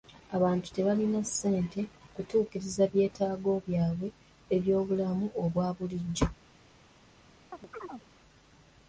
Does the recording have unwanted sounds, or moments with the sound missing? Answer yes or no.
yes